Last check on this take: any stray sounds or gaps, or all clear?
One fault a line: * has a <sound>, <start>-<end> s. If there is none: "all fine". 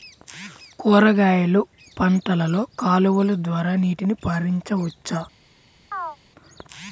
* has a chirp, 5.9-6.2 s